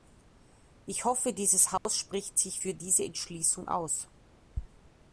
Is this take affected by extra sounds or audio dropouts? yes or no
yes